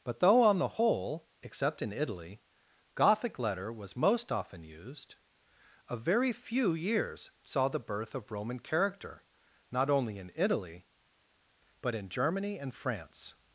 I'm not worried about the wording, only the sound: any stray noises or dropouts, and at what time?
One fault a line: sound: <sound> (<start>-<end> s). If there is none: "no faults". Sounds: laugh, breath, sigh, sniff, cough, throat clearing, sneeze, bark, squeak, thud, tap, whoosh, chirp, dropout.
no faults